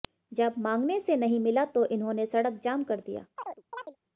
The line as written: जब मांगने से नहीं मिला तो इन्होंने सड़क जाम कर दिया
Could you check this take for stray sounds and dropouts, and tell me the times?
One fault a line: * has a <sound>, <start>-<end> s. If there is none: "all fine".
* has a chirp, 3.4-4.0 s